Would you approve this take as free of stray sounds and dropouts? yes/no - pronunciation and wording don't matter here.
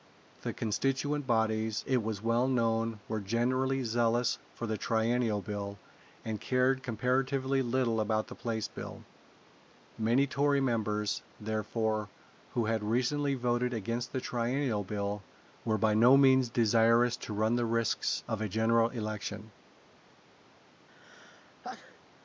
no